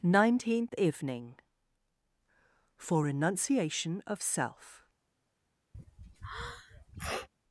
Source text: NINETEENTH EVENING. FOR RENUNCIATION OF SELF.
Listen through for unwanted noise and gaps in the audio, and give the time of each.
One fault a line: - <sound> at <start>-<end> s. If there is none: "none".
- sneeze at 5.7-7.3 s